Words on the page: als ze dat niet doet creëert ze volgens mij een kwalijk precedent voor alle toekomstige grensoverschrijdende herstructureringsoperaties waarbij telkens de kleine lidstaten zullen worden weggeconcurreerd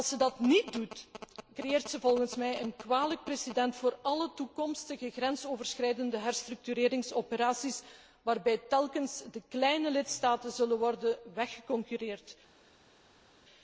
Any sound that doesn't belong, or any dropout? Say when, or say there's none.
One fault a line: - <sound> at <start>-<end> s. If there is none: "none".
none